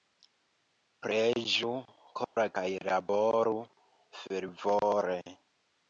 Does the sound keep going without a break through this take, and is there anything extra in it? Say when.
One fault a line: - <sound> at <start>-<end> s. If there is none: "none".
- dropout at 2.3-2.4 s